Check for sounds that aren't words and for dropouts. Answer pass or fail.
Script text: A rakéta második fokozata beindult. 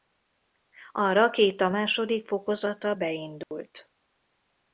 fail